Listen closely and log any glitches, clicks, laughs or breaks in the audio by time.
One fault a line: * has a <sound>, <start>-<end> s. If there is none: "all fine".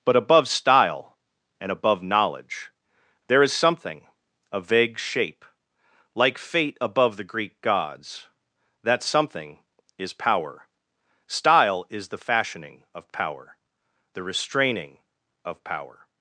all fine